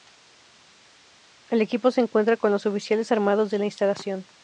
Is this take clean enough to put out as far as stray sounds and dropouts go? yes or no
yes